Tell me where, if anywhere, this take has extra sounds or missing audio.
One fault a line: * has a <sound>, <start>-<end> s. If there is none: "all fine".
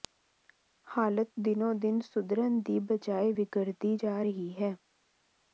all fine